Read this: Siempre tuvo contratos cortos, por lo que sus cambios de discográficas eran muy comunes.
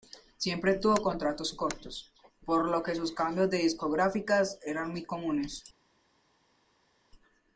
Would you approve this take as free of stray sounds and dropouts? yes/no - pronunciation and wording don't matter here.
yes